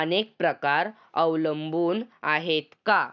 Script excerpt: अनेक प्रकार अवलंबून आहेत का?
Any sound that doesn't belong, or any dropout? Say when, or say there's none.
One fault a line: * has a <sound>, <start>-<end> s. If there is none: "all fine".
all fine